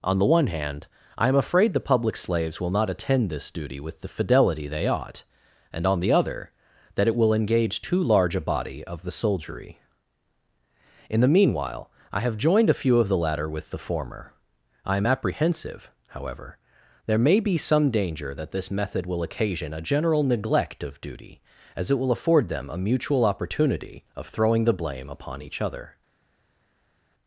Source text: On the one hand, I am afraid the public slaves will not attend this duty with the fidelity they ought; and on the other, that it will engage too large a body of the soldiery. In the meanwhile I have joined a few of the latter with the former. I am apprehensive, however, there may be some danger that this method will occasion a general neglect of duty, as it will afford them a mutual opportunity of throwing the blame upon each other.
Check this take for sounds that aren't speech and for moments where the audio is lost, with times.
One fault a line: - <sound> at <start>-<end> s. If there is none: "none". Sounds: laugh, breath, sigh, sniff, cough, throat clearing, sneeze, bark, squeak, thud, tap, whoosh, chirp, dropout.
none